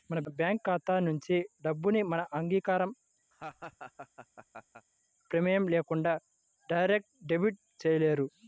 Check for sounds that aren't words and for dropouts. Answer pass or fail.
fail